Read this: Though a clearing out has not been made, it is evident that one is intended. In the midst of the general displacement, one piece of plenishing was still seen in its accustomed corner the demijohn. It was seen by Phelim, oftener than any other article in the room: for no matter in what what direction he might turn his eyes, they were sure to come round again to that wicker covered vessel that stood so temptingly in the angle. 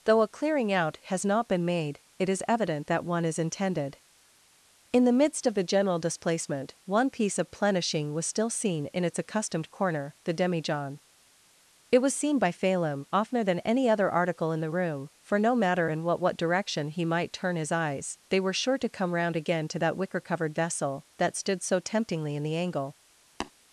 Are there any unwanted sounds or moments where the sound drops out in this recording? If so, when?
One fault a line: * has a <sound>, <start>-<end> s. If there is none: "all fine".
* has a tap, 23.4-23.5 s